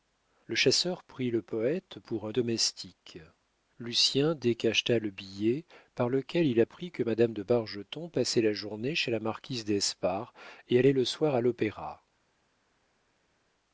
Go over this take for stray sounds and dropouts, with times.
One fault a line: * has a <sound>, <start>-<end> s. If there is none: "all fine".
all fine